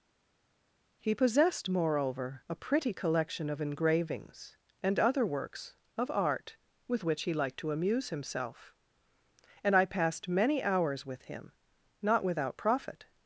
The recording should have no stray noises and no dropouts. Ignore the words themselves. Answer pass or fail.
pass